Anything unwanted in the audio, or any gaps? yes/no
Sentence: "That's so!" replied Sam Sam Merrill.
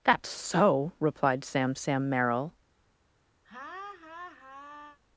yes